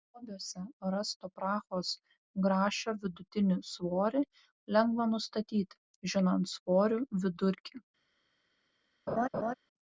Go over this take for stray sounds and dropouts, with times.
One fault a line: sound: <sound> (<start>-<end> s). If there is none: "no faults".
sound: laugh (9.1-9.5 s)